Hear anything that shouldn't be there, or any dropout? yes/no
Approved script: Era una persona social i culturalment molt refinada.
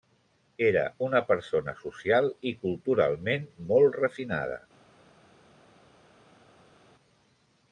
no